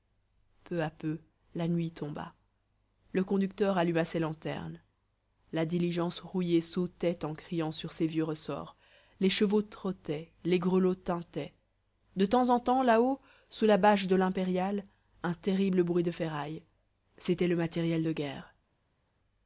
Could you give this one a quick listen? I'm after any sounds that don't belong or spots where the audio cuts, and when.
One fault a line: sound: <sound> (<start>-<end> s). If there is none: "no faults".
no faults